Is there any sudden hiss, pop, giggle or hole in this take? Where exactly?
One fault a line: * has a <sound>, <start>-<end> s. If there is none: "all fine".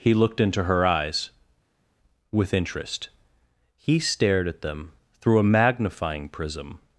all fine